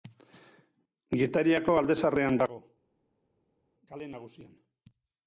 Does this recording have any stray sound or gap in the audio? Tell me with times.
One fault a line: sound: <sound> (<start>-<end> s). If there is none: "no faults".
no faults